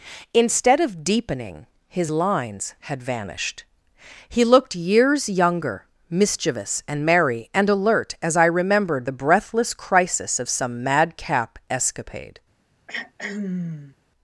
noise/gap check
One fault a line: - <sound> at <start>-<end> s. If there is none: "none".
- throat clearing at 12.9-14.0 s